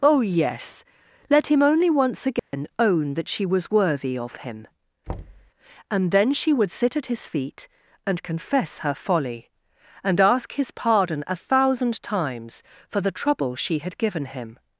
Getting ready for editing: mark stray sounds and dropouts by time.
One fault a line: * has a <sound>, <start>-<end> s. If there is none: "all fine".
* has a dropout, 2.4-2.5 s
* has a thud, 5.1-5.5 s